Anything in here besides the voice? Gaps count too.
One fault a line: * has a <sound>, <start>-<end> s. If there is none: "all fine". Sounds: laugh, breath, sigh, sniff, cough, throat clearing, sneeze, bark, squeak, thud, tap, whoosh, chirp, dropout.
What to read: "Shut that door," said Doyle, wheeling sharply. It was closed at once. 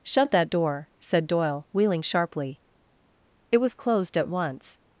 all fine